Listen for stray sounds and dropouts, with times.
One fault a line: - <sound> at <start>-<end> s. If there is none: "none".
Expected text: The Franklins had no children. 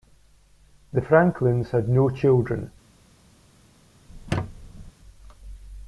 - squeak at 4.1-4.9 s